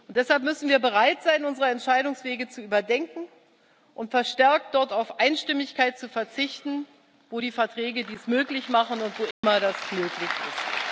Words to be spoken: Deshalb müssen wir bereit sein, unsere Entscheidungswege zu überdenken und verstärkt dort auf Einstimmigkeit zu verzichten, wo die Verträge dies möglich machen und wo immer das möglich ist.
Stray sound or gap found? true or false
true